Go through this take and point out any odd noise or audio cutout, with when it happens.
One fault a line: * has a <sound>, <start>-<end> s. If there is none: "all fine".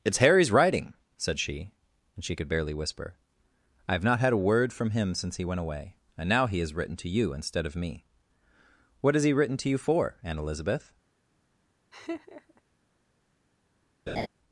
* has a laugh, 11.9-12.6 s
* has a laugh, 14.1-14.3 s